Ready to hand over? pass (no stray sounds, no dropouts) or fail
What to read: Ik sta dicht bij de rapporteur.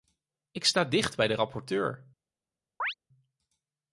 fail